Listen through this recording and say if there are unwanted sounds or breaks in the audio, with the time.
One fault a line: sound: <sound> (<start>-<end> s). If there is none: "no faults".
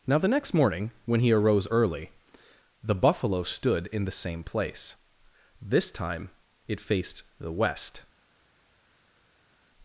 no faults